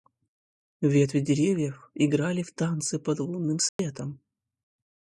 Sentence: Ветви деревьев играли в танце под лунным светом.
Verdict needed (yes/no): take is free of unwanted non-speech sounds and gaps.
no